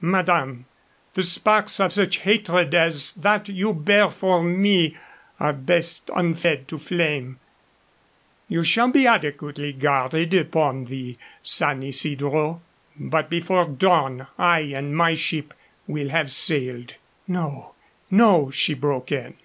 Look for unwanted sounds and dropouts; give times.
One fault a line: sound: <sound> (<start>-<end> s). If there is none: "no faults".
no faults